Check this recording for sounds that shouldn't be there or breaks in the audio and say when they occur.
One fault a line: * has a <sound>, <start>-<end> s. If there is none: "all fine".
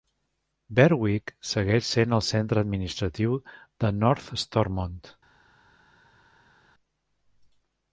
all fine